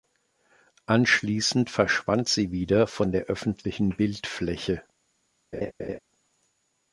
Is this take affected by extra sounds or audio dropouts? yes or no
yes